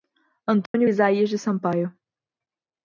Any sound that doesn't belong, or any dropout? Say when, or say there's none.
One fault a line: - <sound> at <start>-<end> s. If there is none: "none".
- dropout at 0.7-0.7 s